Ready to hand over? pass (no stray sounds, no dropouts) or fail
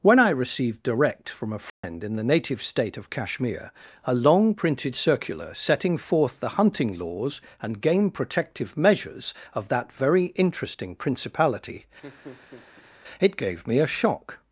fail